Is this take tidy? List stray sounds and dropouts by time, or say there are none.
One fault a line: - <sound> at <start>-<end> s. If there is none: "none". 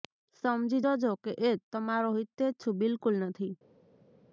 none